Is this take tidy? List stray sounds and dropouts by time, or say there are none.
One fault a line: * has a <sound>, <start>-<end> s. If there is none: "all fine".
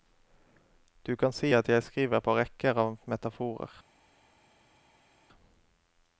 all fine